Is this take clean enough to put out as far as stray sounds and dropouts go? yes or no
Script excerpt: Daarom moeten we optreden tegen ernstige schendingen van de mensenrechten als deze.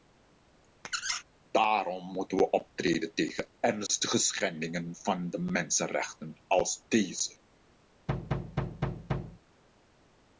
no